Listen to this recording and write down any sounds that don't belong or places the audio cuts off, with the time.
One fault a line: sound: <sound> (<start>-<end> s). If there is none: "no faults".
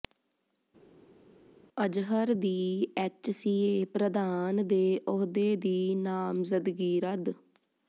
no faults